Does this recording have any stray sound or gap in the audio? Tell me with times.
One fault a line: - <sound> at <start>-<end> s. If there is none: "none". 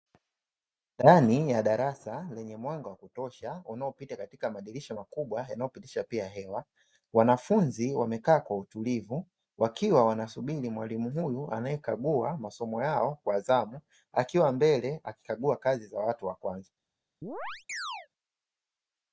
- chirp at 17.2-18.1 s